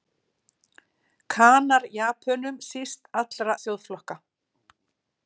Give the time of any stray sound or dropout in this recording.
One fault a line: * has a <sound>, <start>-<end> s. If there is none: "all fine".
all fine